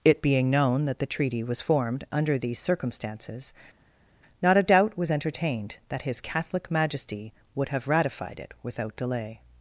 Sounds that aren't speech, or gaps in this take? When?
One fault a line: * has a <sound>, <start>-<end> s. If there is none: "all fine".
all fine